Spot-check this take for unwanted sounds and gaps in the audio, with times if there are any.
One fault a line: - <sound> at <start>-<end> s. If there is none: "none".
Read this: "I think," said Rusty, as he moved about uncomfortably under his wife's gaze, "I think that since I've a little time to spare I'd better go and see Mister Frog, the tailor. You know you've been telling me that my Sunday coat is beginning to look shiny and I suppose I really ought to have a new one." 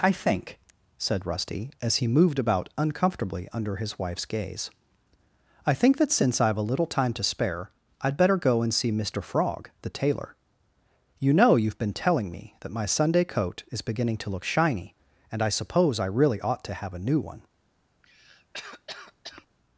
- cough at 18.0-19.5 s